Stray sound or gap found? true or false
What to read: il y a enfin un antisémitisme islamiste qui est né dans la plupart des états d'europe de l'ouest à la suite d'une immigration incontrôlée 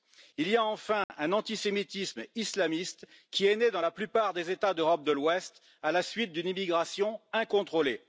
true